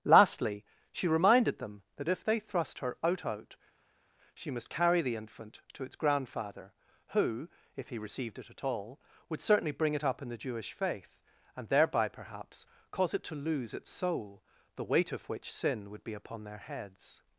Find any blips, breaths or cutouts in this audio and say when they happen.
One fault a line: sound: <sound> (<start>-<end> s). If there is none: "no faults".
no faults